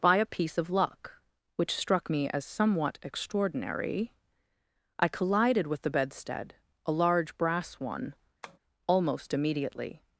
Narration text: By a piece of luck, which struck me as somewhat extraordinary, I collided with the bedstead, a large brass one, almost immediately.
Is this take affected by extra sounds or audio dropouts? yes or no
yes